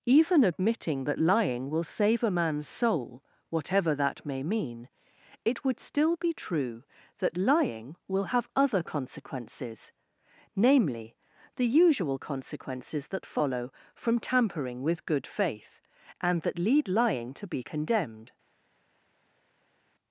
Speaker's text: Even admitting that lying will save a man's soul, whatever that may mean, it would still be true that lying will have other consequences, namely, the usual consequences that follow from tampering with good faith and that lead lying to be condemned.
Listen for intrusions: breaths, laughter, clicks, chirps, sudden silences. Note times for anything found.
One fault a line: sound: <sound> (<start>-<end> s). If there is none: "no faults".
no faults